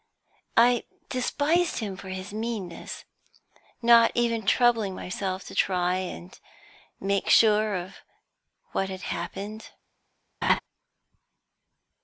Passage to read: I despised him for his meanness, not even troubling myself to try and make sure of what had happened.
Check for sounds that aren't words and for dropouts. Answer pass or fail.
fail